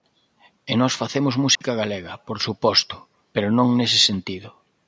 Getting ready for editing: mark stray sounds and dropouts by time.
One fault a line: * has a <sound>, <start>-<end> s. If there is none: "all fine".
* has a dropout, 1.5-1.6 s